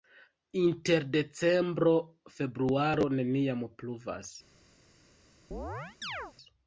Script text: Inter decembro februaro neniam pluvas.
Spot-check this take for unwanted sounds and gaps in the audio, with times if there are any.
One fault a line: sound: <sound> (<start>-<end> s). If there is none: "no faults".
sound: chirp (5.5-6.3 s)